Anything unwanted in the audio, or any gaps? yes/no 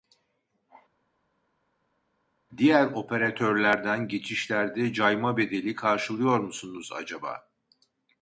no